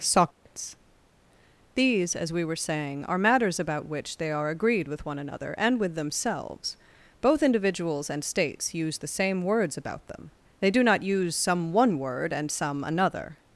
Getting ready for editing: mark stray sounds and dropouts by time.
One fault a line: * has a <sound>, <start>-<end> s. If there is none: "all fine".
* has a dropout, 0.3-0.5 s